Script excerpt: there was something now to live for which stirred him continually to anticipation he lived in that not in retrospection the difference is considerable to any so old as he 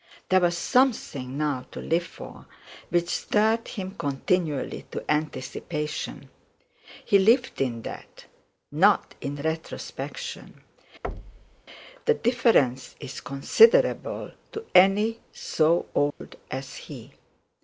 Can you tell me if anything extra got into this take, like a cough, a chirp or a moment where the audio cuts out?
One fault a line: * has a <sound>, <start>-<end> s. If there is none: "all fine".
* has a thud, 11.0-11.6 s
* has a dropout, 16.1-16.2 s